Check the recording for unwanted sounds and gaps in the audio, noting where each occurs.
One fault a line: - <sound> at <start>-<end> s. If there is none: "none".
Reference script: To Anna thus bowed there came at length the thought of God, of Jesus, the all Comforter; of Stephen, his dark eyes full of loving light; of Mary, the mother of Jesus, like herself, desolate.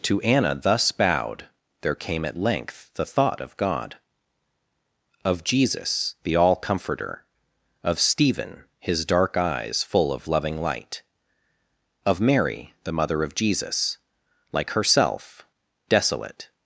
none